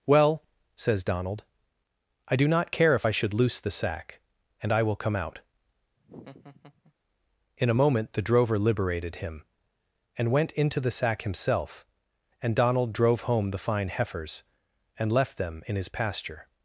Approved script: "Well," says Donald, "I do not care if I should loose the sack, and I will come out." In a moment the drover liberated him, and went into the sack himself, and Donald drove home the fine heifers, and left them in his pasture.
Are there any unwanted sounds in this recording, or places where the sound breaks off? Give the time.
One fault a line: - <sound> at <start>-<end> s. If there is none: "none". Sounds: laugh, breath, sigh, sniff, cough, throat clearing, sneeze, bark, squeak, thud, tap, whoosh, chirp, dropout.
- laugh at 6.0-6.9 s